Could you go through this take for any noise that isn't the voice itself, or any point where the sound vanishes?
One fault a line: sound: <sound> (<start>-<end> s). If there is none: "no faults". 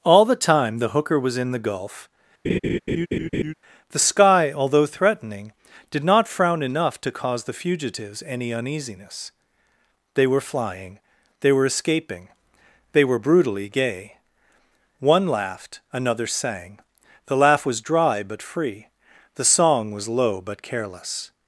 sound: laugh (2.4-3.5 s)